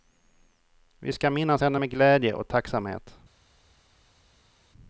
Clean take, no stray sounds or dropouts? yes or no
yes